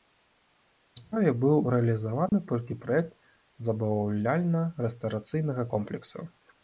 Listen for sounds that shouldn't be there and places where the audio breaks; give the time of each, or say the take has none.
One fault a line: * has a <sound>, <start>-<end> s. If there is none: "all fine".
* has a dropout, 2.3-2.3 s